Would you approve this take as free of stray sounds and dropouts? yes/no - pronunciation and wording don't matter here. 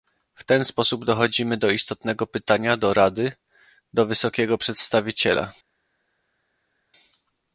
yes